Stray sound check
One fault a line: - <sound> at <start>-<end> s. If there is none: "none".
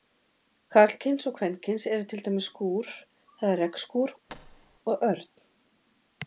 - thud at 4.3-4.8 s